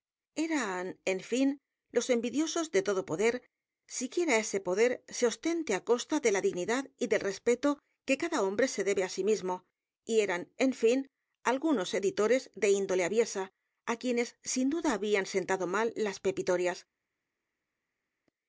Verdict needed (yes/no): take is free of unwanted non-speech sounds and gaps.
yes